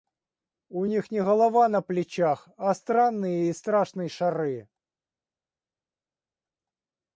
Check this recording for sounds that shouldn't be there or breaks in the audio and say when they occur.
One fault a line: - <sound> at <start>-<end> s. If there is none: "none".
none